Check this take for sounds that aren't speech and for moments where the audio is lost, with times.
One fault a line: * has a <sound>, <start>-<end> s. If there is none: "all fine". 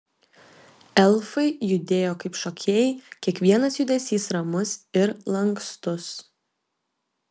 all fine